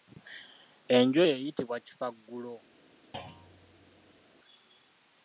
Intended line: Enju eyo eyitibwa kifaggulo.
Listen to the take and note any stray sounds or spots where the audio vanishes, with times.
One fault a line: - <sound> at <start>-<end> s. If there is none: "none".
- thud at 3.1-4.2 s